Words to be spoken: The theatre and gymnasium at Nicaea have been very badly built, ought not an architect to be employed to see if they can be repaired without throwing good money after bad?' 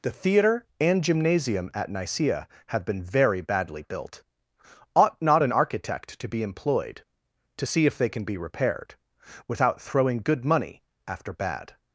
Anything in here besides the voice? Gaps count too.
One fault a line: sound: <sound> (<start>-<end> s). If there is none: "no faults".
no faults